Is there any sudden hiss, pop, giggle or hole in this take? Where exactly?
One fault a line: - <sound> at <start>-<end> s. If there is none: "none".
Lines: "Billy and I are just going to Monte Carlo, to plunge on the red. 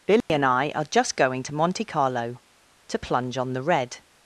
- dropout at 0.2-0.3 s